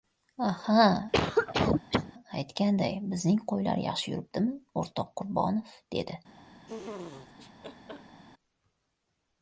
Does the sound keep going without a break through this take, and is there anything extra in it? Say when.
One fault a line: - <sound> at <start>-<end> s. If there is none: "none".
- cough at 1.1-2.1 s
- laugh at 6.7-8.2 s